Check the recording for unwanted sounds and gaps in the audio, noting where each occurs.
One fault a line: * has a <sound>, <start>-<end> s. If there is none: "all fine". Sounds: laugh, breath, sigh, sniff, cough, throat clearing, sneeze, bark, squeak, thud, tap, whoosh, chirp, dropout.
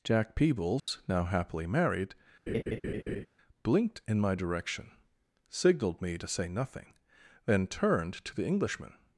* has a dropout, 0.8-0.9 s
* has a laugh, 2.5-3.3 s